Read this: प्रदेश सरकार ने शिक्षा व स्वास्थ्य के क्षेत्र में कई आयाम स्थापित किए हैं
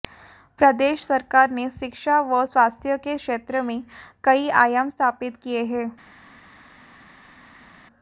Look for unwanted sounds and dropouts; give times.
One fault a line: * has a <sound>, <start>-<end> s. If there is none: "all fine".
all fine